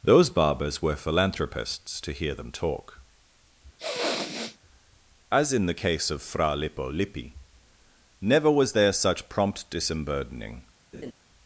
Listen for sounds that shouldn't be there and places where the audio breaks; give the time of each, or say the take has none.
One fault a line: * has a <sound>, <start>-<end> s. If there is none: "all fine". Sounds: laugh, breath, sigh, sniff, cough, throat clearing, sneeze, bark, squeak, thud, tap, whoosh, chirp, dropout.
* has a sniff, 3.8-4.6 s
* has a laugh, 10.9-11.1 s